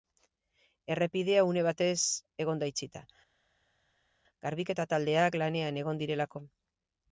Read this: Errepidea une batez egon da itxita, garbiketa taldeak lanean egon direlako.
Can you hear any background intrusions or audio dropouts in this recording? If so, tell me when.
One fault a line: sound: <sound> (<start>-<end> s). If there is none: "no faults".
no faults